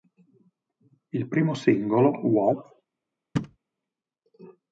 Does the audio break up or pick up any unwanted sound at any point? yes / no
yes